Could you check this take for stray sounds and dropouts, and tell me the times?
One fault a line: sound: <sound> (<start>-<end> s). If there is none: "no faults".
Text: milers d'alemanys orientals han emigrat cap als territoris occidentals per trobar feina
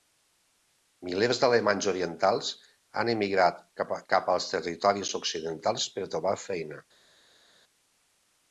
no faults